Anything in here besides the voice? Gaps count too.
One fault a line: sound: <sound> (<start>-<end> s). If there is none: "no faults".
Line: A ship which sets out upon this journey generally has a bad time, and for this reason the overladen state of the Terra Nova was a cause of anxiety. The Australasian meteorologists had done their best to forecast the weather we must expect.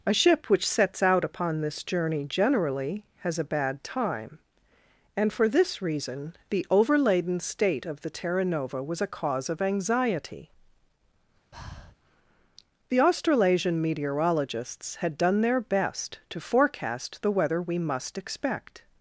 sound: breath (11.5-12.0 s)